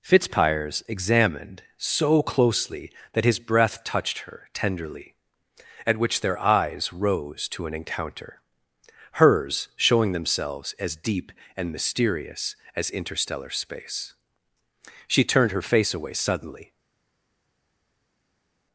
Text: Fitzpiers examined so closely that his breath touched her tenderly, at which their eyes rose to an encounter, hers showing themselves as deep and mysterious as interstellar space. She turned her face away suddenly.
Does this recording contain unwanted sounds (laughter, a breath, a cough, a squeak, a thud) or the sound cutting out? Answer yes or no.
no